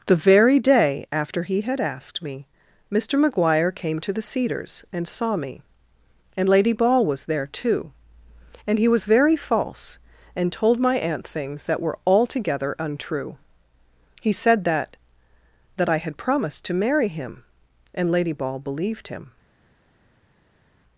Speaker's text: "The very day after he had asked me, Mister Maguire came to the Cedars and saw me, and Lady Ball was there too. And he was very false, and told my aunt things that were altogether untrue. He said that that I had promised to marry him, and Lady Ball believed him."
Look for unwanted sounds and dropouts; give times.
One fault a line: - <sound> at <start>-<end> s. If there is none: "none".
none